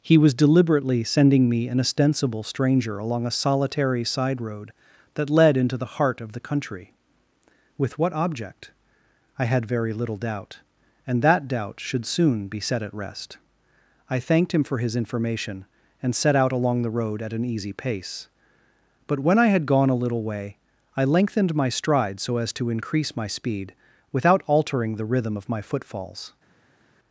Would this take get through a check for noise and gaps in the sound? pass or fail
pass